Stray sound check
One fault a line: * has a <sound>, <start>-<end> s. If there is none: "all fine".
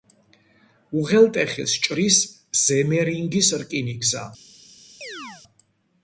* has a chirp, 5.0-5.4 s